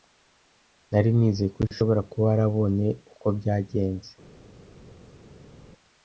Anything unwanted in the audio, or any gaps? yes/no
no